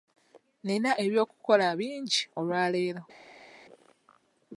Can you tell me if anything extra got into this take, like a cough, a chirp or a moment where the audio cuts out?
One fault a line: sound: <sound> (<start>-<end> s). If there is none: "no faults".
no faults